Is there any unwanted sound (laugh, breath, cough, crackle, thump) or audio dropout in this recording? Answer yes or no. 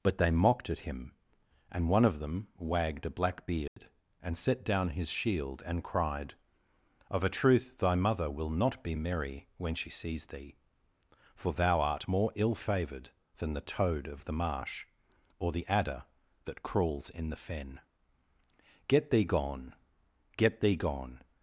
yes